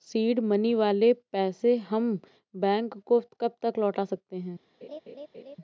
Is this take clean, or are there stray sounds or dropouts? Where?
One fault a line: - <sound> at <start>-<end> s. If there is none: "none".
- laugh at 4.8-5.6 s